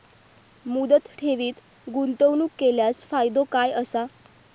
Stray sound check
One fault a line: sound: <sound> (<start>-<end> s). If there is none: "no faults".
no faults